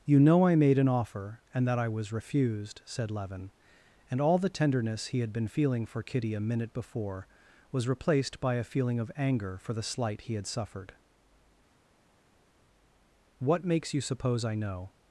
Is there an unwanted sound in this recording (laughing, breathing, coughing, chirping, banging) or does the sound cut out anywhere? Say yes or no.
no